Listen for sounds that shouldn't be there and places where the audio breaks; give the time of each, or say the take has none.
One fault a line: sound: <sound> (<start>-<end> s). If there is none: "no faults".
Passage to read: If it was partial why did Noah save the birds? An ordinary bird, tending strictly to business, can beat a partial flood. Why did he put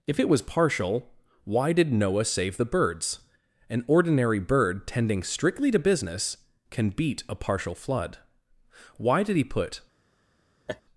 sound: laugh (10.7-10.8 s)